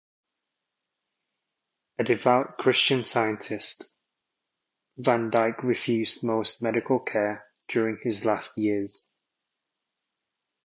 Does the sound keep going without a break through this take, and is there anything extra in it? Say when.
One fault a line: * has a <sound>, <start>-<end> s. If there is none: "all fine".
all fine